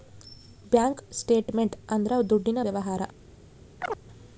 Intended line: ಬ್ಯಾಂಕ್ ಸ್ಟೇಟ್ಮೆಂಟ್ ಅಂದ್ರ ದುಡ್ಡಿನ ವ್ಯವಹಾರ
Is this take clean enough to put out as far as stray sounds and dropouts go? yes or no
no